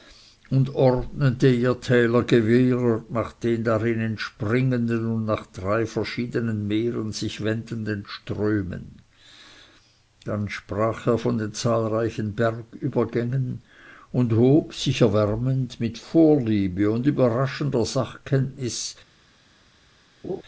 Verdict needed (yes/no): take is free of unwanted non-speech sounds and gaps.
no